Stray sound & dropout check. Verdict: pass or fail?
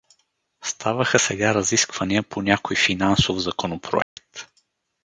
fail